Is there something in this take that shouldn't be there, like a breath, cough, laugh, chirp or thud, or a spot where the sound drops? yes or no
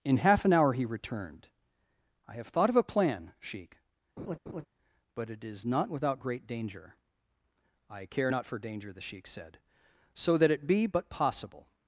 yes